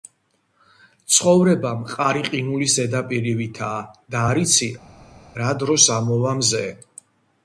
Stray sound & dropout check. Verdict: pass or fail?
pass